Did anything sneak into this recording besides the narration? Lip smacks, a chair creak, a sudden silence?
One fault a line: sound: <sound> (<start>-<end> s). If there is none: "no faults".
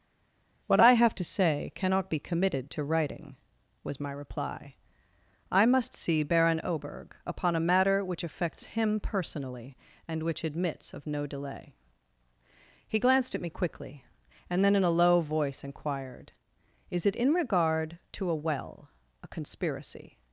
no faults